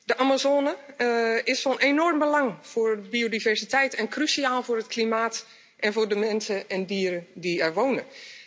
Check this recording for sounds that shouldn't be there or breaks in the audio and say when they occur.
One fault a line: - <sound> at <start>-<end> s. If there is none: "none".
none